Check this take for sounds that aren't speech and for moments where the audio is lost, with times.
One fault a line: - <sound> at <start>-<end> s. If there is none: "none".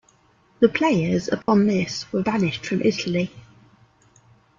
- dropout at 1.4-1.5 s